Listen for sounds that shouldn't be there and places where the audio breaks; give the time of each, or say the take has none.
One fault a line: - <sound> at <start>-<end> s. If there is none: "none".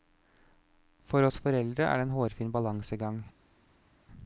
none